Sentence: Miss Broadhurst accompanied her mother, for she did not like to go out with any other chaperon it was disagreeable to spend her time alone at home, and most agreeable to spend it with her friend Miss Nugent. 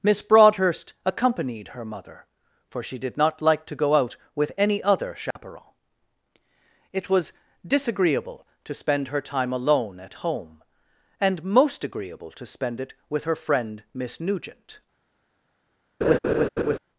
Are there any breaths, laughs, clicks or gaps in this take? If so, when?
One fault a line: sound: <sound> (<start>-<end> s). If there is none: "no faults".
sound: dropout (5.3-5.4 s)
sound: laugh (16.0-16.8 s)